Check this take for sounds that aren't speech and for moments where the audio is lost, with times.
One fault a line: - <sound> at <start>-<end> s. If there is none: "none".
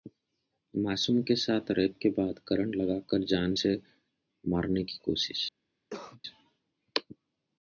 - cough at 5.9-6.2 s